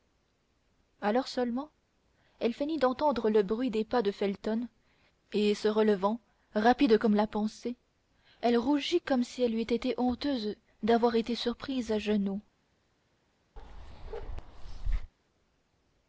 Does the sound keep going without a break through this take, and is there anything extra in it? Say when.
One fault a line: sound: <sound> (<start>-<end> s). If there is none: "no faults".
sound: bark (13.6-15.1 s)